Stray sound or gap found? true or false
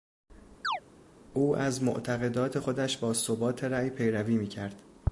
true